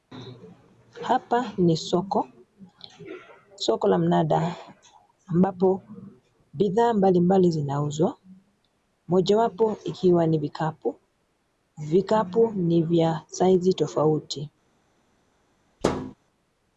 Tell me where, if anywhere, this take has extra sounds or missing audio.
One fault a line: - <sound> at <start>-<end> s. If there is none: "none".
- thud at 15.8-16.1 s